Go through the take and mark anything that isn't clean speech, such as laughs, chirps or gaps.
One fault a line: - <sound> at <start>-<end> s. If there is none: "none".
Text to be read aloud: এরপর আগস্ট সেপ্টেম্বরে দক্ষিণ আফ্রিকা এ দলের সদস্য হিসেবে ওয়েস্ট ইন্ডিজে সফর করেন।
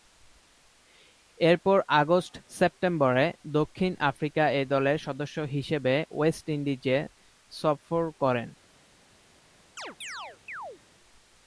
- chirp at 9.8-10.8 s